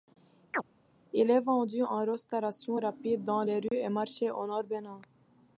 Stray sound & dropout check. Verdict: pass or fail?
fail